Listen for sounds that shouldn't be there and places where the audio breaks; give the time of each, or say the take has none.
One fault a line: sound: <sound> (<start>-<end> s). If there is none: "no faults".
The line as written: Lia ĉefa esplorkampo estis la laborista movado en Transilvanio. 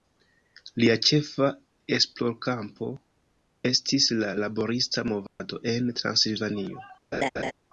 sound: dropout (5.3-5.4 s)
sound: laugh (7.1-7.5 s)